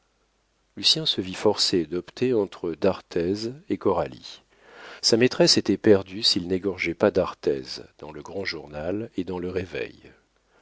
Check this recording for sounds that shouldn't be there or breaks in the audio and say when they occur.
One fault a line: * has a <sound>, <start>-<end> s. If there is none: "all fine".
all fine